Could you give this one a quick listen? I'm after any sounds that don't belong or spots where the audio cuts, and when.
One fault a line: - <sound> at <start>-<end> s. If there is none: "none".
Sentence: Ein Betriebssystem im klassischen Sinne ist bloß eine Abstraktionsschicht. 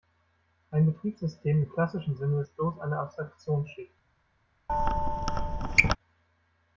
- squeak at 4.7-6.0 s